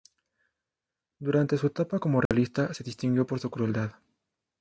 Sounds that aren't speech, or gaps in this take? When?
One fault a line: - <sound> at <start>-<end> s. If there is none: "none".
- dropout at 2.3-2.3 s